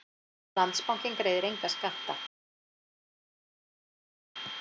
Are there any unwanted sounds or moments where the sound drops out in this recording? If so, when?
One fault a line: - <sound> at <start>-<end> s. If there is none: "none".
none